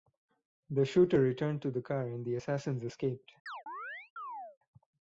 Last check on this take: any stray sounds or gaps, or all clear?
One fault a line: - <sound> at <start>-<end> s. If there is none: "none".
- chirp at 3.5-4.6 s